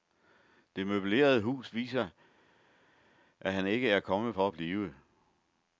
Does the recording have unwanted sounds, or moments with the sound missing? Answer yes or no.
no